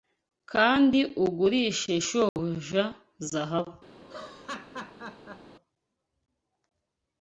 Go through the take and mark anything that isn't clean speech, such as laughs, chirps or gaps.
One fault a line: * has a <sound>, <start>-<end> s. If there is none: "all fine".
* has a dropout, 2.3-2.4 s
* has a laugh, 4.0-5.5 s